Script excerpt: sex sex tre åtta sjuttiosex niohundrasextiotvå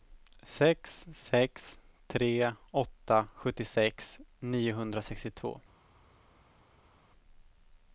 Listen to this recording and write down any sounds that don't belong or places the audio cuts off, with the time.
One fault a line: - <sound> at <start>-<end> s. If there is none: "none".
none